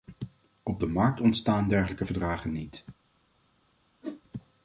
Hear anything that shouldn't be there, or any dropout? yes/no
yes